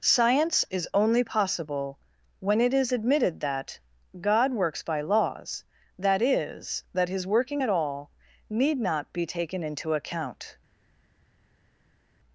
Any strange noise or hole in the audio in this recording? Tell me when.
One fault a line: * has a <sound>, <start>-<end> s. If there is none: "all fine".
all fine